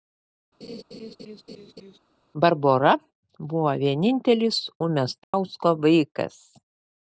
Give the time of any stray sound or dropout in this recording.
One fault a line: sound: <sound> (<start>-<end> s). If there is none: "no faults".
sound: laugh (0.6-2.0 s)
sound: dropout (5.2-5.3 s)